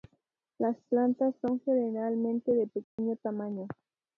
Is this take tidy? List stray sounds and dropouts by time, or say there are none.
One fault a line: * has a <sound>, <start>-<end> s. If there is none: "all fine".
* has a dropout, 2.8-3.0 s